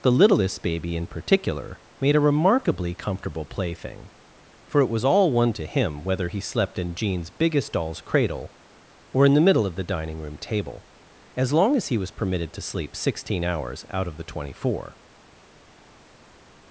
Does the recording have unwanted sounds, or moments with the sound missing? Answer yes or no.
no